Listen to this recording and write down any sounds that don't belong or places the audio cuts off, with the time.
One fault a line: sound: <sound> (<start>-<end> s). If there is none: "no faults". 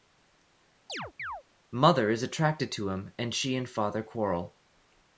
sound: chirp (0.9-1.4 s)